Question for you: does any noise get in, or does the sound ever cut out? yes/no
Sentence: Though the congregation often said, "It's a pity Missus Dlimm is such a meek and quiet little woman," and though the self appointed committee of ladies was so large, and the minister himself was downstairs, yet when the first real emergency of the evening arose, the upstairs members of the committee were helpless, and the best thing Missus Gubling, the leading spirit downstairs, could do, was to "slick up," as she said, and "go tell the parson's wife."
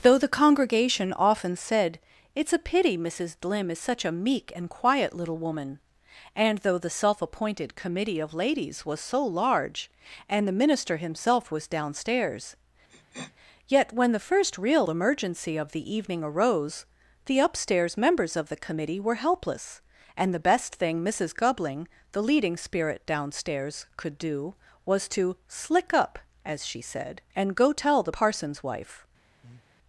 yes